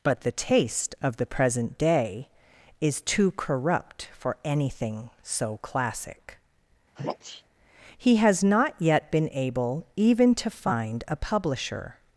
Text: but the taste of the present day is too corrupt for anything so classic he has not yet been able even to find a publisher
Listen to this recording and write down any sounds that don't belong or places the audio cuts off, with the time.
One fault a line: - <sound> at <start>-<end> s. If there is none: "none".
- sneeze at 7.0-7.4 s